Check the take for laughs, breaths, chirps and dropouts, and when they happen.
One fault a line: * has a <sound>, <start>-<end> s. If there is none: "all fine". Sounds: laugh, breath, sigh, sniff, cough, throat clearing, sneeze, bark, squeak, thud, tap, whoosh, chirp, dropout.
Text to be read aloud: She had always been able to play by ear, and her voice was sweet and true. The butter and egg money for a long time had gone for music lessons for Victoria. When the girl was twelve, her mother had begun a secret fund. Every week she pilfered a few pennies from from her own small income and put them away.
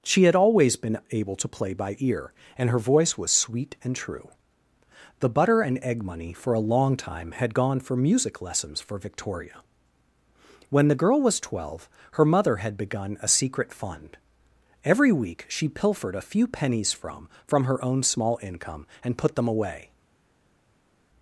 all fine